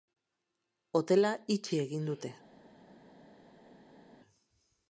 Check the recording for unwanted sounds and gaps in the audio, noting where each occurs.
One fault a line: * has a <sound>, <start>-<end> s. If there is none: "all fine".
all fine